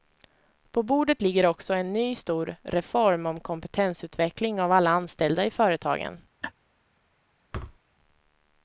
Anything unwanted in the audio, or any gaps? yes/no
yes